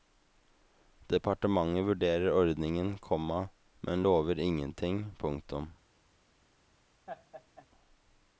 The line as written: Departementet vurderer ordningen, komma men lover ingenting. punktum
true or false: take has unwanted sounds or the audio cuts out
true